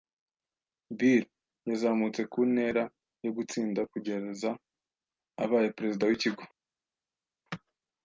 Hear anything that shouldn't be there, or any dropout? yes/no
no